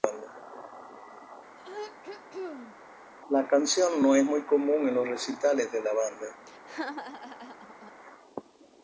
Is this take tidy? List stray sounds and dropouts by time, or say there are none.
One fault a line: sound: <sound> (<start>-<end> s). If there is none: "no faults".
sound: throat clearing (1.6-2.8 s)
sound: laugh (6.5-7.9 s)